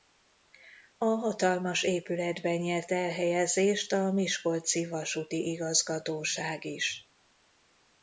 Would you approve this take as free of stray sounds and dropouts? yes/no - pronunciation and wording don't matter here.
yes